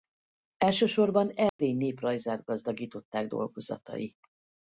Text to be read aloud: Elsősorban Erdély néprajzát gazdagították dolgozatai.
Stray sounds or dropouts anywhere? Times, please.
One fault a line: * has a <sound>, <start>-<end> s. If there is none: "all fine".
* has a dropout, 1.5-1.6 s